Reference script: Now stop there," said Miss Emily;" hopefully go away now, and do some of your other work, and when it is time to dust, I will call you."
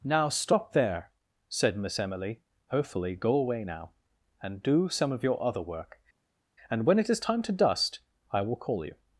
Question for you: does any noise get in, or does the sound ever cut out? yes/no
no